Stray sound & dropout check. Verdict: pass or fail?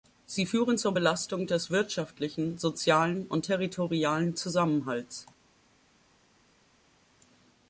pass